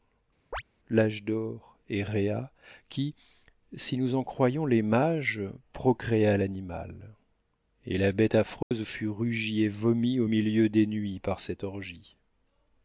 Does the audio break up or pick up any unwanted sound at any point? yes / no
yes